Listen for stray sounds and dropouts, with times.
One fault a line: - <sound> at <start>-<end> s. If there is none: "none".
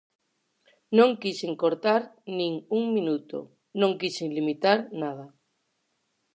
none